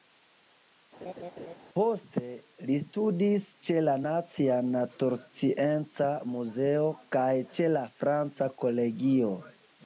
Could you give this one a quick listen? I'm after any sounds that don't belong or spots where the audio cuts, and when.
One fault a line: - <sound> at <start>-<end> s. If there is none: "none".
- laugh at 1.0-1.5 s